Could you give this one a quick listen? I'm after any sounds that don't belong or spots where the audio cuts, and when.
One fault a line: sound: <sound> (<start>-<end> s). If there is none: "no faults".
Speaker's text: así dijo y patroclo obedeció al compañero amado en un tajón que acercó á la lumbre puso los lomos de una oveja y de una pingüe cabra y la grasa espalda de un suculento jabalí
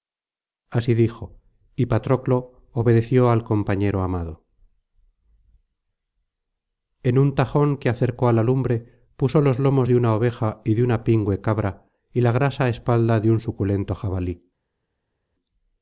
no faults